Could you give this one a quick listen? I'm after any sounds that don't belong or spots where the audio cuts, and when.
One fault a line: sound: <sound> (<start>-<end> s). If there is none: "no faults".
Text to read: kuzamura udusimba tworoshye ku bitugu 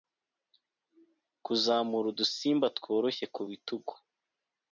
no faults